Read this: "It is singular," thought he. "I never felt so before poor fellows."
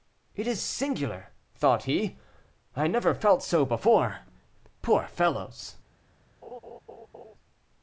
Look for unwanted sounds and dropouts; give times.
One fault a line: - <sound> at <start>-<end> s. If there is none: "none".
- laugh at 6.4-7.3 s